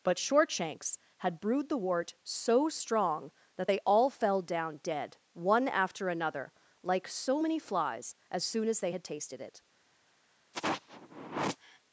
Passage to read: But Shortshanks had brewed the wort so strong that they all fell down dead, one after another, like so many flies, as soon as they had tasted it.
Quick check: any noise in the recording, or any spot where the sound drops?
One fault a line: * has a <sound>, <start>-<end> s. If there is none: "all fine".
* has a sigh, 10.5-11.8 s